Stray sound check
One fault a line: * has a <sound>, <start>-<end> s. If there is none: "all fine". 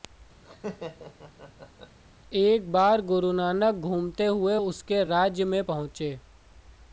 * has a laugh, 0.4-2.0 s